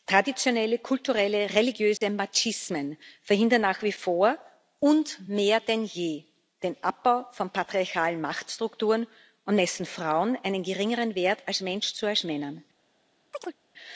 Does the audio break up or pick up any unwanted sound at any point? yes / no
yes